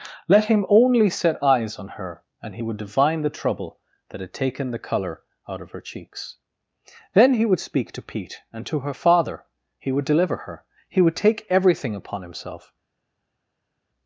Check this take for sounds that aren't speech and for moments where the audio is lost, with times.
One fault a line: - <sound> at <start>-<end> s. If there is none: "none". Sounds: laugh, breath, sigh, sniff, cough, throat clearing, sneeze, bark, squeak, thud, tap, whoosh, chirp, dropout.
none